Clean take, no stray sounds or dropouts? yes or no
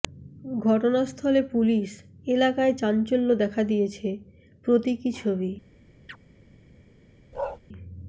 no